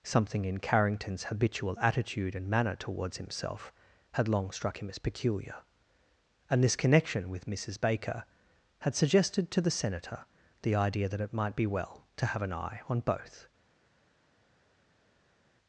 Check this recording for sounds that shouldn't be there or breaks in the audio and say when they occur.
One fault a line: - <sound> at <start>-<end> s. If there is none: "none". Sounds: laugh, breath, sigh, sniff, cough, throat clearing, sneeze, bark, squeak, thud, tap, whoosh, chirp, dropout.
none